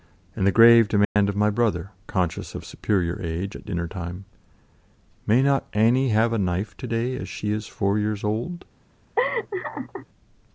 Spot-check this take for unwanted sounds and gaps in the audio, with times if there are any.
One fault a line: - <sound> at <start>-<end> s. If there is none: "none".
- dropout at 1.0-1.2 s
- laugh at 9.2-10.1 s